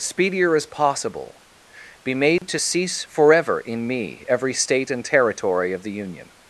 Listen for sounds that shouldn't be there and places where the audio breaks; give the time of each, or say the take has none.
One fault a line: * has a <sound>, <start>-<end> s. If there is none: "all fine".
* has a dropout, 2.4-2.4 s